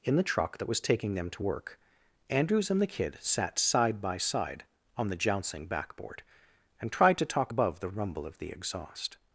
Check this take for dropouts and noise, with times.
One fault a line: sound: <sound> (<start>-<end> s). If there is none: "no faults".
no faults